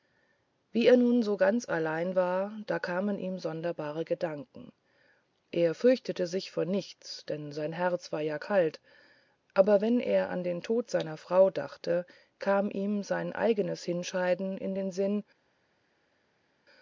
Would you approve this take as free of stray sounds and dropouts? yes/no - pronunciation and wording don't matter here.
yes